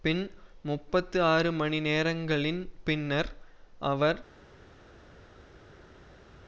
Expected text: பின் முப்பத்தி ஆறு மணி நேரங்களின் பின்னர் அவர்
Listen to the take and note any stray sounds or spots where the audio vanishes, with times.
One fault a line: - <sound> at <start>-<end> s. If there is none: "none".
none